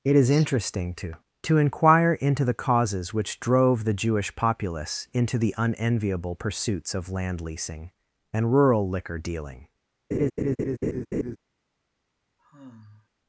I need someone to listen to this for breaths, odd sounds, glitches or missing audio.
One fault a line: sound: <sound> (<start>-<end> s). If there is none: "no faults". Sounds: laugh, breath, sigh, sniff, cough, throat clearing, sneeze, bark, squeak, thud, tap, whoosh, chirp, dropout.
sound: laugh (10.1-11.4 s)
sound: sigh (12.4-13.1 s)